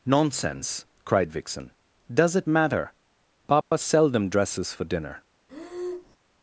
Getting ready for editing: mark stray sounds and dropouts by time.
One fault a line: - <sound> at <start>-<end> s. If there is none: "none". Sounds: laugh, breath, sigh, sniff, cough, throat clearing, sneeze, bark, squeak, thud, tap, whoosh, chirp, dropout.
- dropout at 3.6-3.7 s
- breath at 5.5-6.2 s